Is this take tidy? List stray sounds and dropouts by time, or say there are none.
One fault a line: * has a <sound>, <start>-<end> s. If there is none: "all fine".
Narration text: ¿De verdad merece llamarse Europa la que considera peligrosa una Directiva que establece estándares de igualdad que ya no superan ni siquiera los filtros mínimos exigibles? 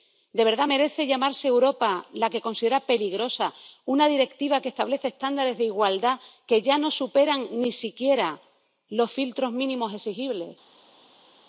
all fine